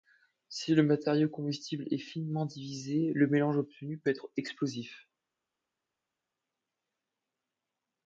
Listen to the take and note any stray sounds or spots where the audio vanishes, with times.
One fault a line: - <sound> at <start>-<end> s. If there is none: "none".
none